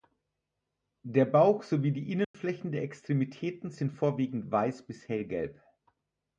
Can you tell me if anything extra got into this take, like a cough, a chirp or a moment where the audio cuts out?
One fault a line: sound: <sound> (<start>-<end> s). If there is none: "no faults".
sound: dropout (2.2-2.3 s)